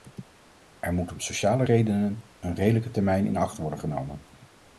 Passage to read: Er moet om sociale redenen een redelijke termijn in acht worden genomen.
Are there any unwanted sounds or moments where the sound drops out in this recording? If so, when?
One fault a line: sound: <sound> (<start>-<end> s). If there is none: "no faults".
no faults